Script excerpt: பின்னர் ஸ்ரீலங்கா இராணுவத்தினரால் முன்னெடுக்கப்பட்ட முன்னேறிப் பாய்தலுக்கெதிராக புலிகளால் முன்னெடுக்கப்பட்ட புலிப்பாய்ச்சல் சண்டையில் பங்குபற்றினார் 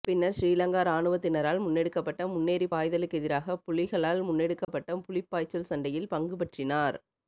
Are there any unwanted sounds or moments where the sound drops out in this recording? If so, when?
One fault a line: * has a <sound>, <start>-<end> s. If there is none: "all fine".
* has a dropout, 4.6-4.7 s